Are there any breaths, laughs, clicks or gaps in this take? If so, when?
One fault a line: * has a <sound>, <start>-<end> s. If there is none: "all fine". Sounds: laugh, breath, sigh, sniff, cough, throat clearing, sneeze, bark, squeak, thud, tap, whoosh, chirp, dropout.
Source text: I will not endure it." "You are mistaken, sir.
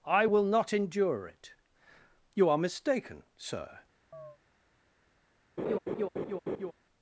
* has a chirp, 4.1-4.4 s
* has a laugh, 5.6-6.7 s